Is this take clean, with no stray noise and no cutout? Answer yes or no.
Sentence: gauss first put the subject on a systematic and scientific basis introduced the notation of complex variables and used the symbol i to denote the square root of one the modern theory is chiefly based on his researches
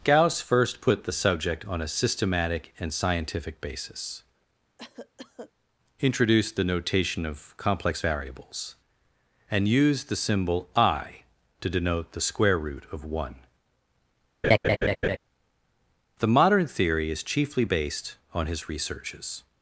no